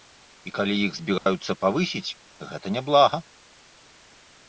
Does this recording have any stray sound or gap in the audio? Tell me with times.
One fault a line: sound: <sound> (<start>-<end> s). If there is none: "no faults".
sound: dropout (1.2-1.3 s)